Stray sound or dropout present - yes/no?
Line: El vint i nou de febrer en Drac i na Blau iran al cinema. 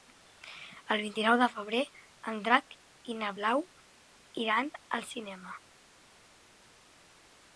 no